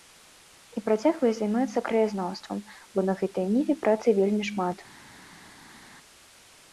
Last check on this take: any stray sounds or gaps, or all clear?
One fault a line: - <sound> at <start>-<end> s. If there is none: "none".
none